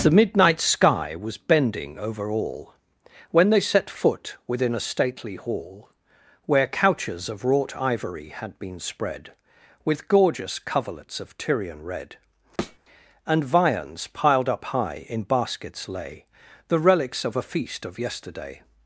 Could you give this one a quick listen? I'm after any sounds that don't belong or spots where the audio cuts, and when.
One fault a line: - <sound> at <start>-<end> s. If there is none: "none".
- thud at 12.6-12.8 s